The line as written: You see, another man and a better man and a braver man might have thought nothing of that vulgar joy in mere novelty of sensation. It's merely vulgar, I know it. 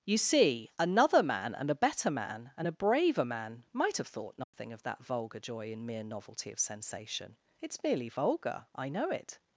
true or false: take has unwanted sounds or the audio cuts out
true